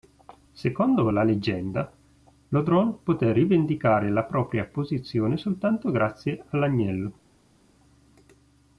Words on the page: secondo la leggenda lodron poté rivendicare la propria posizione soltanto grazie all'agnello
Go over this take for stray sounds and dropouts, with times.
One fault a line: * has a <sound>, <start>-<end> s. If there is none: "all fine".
all fine